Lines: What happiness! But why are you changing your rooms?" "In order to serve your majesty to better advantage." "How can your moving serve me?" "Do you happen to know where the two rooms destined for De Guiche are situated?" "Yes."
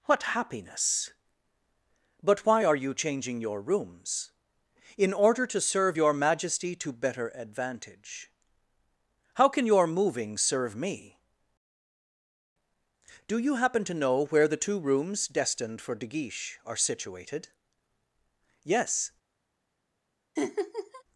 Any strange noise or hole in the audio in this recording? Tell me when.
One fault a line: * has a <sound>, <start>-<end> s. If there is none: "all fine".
* has a laugh, 20.4-21.0 s